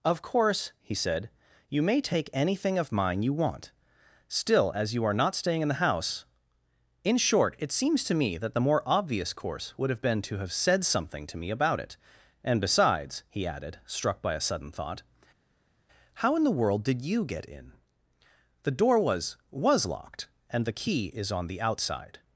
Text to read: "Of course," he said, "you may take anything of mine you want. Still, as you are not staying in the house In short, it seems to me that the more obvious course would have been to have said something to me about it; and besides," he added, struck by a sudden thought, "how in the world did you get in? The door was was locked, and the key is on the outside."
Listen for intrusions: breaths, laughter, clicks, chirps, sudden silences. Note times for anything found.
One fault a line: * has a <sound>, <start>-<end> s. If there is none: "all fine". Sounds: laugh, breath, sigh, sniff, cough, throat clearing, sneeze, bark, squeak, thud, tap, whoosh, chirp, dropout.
all fine